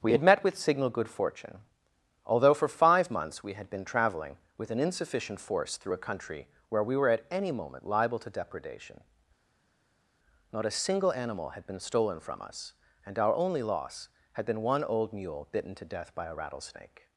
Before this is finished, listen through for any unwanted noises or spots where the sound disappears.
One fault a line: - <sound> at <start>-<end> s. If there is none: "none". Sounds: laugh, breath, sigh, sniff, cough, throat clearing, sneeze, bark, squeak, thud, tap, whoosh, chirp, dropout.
none